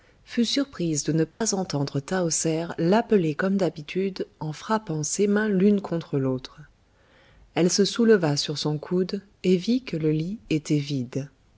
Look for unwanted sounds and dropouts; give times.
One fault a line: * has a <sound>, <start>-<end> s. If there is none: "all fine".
* has a dropout, 1.3-1.4 s